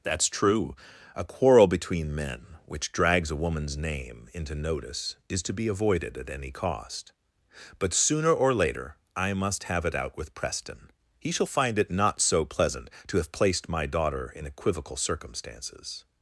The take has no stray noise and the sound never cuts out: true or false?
true